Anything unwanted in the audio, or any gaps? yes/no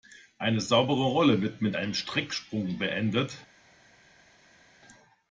no